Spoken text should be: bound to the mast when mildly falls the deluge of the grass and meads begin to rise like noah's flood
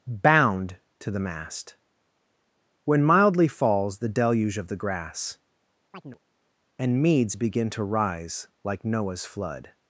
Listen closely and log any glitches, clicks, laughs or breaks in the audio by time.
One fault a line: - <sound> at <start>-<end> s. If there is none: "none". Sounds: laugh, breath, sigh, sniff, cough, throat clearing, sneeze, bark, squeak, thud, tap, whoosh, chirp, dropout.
- chirp at 5.9-6.2 s